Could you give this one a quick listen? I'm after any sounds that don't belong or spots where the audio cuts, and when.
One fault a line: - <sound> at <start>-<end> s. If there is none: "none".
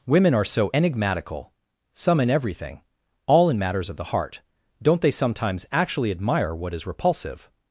none